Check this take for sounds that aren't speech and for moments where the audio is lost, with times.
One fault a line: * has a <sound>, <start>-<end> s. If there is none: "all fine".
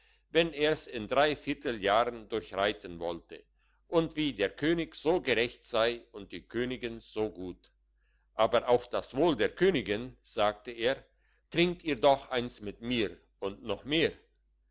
all fine